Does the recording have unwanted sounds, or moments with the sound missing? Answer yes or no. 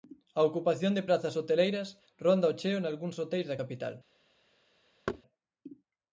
yes